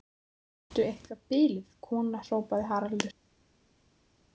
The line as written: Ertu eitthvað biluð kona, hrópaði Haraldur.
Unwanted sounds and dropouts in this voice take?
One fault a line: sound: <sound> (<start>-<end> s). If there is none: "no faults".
no faults